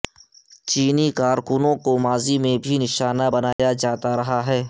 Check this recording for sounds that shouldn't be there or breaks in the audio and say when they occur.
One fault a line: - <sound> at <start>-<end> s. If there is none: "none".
- dropout at 3.5-3.6 s